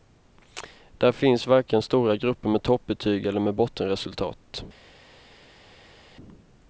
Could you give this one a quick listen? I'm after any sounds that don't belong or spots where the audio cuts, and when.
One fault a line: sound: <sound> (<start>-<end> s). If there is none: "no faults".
no faults